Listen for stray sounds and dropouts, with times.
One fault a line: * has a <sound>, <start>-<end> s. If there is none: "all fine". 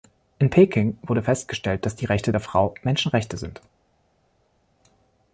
all fine